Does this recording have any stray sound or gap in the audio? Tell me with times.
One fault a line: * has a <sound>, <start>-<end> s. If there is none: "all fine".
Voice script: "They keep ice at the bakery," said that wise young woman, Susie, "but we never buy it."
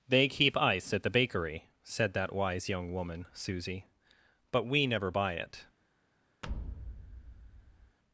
* has a thud, 6.4-8.0 s